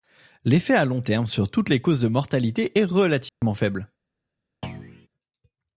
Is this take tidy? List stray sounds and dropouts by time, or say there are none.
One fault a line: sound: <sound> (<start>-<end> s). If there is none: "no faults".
sound: dropout (3.3-3.4 s)
sound: thud (4.6-5.1 s)